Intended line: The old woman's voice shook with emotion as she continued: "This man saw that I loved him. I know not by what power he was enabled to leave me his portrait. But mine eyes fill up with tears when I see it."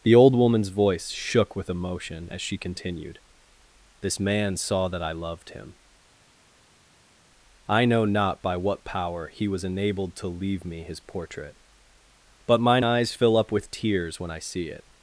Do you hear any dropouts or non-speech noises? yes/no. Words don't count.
no